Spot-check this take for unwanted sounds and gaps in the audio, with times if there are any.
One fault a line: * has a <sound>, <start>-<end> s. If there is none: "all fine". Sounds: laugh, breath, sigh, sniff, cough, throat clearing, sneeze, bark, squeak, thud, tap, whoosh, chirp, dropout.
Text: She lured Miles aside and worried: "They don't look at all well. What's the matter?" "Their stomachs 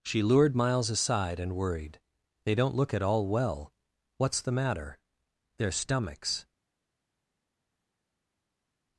all fine